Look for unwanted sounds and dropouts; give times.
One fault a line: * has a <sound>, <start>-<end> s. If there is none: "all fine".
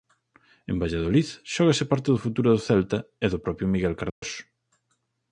* has a dropout, 4.1-4.2 s